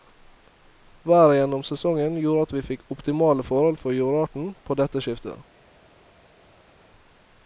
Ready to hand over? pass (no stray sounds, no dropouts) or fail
pass